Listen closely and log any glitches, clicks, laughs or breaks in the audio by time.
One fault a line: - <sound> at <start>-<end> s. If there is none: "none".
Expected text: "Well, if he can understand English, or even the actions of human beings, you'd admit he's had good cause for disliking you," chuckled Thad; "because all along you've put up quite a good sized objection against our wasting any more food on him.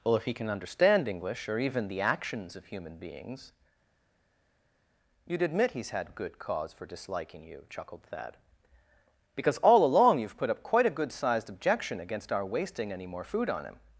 none